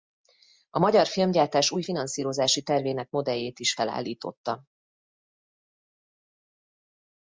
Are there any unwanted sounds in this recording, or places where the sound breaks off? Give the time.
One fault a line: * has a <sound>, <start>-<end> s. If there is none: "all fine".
all fine